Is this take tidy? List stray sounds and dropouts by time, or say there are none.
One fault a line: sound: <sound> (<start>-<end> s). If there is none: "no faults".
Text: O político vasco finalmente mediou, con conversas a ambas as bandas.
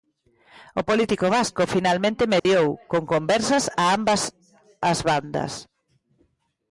sound: dropout (2.4-2.5 s)